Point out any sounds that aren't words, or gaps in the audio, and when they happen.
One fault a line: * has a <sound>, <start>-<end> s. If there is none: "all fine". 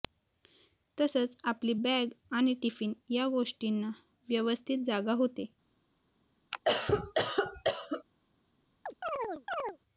* has a cough, 6.5-8.0 s
* has a chirp, 8.9-9.8 s